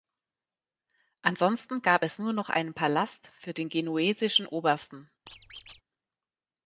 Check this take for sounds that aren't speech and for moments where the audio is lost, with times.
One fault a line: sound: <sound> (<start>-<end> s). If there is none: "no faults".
sound: squeak (5.3-5.8 s)